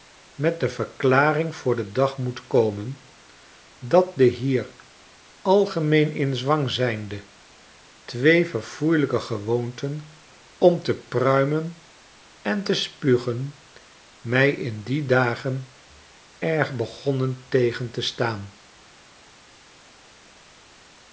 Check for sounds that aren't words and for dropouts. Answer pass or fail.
pass